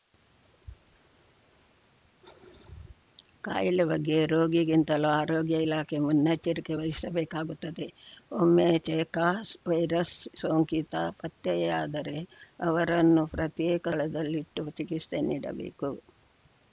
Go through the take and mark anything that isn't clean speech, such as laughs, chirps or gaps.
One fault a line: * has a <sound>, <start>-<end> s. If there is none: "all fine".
all fine